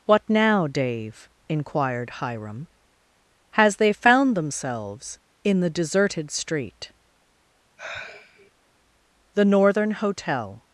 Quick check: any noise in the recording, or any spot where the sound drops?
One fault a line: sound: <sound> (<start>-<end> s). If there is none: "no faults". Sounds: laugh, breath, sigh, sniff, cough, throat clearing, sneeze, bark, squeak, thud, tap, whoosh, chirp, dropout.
sound: sigh (7.8-8.5 s)